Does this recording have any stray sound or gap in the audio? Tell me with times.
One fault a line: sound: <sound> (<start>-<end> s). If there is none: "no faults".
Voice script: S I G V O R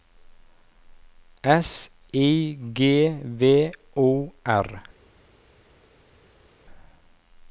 no faults